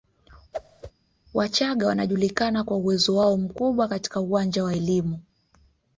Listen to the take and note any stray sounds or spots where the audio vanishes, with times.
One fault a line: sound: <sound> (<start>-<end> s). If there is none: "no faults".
sound: whoosh (0.5-0.9 s)